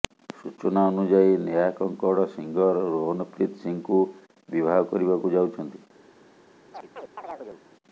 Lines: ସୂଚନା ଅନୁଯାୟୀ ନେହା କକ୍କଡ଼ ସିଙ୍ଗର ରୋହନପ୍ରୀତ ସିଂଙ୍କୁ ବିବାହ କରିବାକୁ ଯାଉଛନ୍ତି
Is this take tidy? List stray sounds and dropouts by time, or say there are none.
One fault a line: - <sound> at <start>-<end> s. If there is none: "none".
- chirp at 6.7-7.6 s